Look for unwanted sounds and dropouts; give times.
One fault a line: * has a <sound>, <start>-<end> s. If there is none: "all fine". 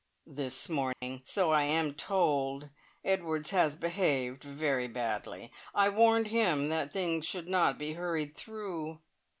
* has a dropout, 0.9-1.0 s